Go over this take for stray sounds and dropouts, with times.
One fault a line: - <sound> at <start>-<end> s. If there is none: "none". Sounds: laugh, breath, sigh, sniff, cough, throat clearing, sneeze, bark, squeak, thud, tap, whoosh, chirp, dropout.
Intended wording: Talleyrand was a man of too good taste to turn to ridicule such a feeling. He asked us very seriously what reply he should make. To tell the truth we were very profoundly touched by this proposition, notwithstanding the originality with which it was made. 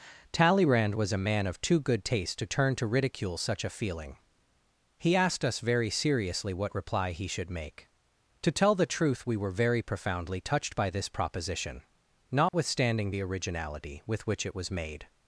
- dropout at 12.5-12.5 s